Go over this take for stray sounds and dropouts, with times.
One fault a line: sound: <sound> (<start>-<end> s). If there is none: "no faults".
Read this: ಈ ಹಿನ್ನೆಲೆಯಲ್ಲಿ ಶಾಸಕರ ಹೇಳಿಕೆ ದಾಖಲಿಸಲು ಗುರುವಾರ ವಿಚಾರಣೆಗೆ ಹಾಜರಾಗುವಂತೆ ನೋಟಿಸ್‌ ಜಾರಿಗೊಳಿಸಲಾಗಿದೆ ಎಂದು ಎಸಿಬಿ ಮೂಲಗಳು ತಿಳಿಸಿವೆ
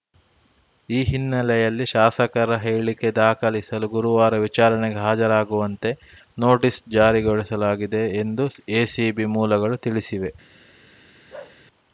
sound: bark (11.3-11.6 s)